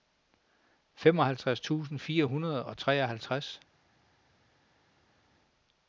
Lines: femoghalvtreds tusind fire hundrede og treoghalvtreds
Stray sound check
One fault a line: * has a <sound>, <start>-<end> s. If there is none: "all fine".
all fine